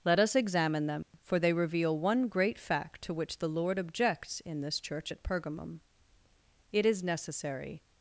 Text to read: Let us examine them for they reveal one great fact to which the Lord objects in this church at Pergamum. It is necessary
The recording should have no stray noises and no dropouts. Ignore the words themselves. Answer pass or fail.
fail